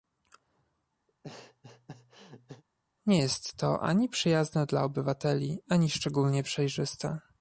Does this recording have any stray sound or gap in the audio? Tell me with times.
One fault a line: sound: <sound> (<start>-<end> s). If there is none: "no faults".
sound: laugh (1.1-2.6 s)